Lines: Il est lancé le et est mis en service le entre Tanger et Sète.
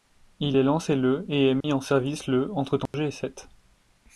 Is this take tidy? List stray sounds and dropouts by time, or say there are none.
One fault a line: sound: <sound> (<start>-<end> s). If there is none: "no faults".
sound: dropout (1.6-1.6 s)
sound: dropout (2.9-2.9 s)